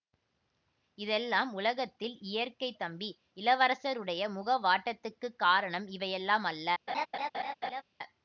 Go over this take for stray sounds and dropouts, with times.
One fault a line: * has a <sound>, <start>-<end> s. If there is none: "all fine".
* has a laugh, 6.9-7.8 s